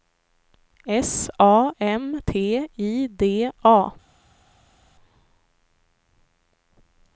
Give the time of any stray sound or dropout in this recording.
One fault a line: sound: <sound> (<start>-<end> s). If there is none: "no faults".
no faults